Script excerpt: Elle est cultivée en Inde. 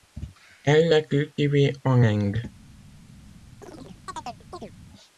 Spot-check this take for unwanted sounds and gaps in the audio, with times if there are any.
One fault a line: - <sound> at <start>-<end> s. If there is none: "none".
- chirp at 3.6-4.7 s